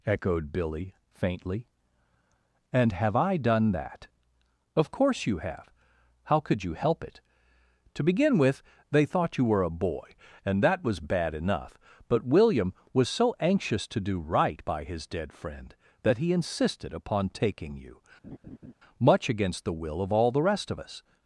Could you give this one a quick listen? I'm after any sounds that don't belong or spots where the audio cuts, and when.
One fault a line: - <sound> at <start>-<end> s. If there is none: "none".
- laugh at 18.2-18.7 s